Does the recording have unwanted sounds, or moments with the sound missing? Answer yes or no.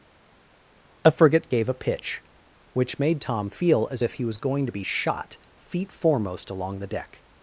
no